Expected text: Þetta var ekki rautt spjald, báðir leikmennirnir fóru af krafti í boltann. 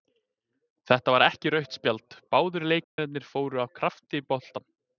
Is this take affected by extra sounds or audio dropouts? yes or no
yes